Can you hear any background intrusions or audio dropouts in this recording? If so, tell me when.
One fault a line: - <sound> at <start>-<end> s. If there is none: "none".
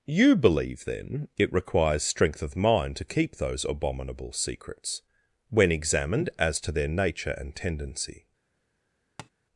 - tap at 9.2-9.3 s